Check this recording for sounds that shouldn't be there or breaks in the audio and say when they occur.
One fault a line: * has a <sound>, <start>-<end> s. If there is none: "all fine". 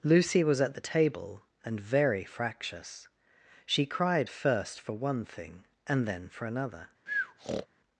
* has a breath, 7.1-7.7 s